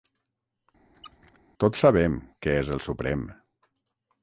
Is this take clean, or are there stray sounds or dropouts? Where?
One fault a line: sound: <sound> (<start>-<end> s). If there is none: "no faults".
sound: squeak (0.9-1.4 s)